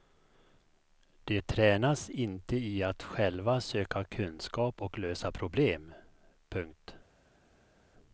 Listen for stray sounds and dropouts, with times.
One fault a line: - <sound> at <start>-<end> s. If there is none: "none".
none